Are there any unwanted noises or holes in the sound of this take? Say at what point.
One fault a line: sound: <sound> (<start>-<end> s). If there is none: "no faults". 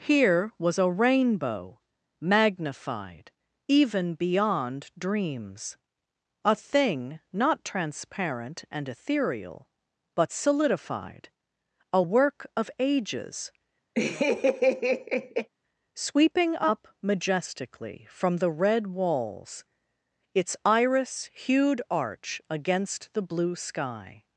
sound: laugh (13.9-15.5 s)